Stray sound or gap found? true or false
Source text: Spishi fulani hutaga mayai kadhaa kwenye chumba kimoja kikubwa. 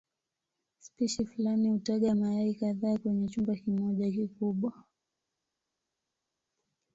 false